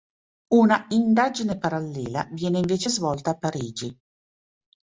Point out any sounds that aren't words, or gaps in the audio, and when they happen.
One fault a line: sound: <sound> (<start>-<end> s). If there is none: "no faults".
no faults